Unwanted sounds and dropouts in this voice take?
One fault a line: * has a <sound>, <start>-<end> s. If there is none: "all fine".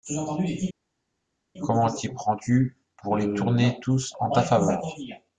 all fine